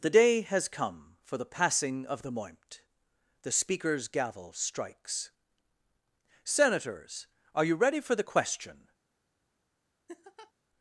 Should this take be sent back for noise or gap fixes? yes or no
yes